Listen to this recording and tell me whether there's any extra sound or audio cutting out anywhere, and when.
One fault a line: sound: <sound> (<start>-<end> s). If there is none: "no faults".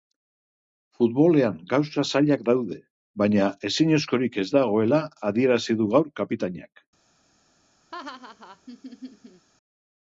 sound: laugh (7.9-9.5 s)